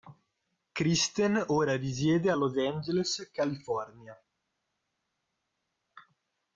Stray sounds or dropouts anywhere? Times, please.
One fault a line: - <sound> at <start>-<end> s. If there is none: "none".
none